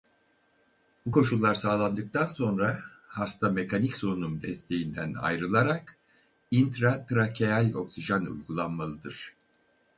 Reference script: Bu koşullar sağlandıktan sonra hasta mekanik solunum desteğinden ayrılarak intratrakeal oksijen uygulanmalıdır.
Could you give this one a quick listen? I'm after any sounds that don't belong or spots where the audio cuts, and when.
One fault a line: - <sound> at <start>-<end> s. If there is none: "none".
none